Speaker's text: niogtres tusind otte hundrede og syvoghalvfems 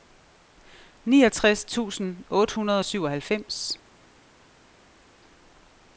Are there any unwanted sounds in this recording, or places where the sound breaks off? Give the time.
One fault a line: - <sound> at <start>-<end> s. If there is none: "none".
none